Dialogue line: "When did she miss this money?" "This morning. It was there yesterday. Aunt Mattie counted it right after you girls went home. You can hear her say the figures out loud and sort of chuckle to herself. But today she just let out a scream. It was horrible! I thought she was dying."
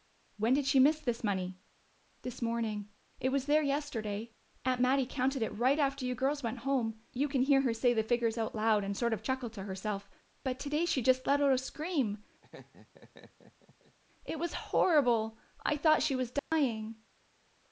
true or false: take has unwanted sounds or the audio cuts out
true